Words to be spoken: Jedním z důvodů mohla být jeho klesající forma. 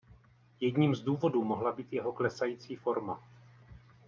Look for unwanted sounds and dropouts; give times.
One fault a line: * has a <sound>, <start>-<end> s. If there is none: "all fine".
all fine